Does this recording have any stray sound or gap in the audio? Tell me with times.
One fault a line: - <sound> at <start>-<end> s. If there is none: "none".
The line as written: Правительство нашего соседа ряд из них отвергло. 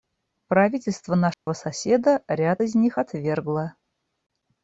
- dropout at 1.3-1.5 s